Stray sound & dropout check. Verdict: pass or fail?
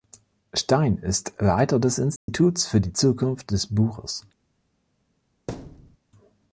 fail